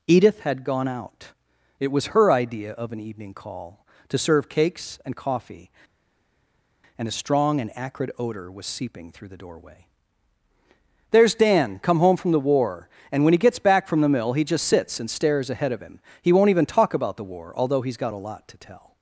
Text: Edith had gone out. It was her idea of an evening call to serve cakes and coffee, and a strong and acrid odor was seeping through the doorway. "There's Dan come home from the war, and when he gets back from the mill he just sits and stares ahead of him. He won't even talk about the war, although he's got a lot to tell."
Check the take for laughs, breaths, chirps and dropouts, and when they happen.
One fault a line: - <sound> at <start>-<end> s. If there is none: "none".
none